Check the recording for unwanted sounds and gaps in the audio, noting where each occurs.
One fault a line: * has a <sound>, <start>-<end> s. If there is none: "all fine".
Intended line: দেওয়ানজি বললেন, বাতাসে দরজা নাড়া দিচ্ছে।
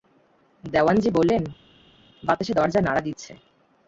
all fine